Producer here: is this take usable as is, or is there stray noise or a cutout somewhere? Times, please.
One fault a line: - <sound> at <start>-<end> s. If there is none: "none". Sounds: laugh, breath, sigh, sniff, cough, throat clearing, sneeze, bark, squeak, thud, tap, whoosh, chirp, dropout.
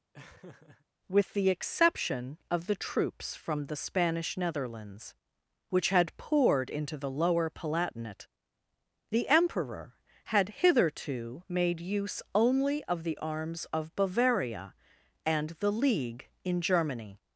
- laugh at 0.1-0.9 s